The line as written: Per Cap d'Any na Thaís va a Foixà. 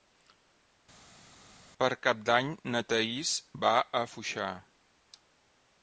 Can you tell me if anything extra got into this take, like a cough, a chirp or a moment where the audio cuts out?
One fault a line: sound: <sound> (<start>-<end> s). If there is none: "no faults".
no faults